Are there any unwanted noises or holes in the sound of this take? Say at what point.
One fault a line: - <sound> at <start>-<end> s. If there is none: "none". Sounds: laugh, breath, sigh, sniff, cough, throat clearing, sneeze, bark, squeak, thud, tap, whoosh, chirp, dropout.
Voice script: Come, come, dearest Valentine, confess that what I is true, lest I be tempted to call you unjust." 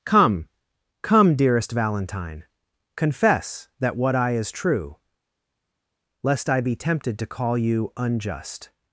none